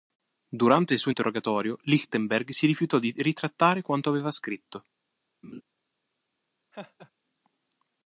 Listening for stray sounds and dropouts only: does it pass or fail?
fail